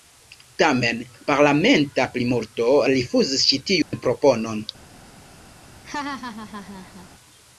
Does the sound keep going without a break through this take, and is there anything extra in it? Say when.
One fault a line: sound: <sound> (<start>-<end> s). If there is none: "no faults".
sound: dropout (3.8-3.9 s)
sound: laugh (5.8-7.1 s)